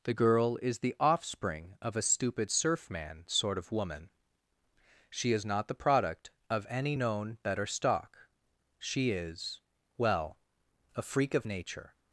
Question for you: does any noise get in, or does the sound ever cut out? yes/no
no